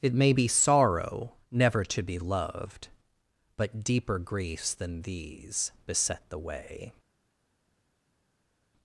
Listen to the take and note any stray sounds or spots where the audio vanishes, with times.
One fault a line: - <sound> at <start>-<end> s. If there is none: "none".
none